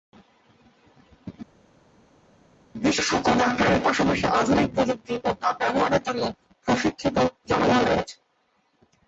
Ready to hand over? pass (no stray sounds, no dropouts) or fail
pass